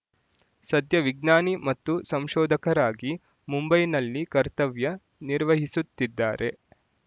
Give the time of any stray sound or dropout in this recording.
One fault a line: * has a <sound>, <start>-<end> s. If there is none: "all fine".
all fine